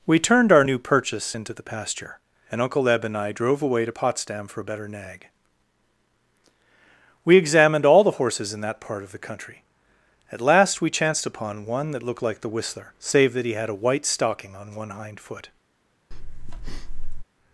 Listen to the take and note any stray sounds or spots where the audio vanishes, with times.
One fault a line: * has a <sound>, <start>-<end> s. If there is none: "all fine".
* has a breath, 16.1-17.2 s